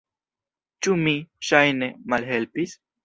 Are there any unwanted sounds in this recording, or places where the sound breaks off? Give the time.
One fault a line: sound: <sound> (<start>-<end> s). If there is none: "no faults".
no faults